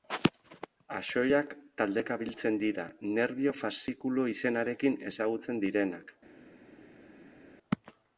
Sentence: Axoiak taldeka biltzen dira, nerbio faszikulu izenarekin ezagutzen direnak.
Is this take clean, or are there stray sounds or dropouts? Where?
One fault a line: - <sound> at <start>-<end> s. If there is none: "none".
none